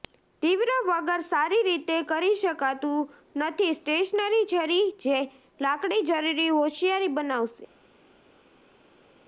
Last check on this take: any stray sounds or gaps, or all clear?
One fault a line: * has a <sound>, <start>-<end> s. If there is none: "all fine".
all fine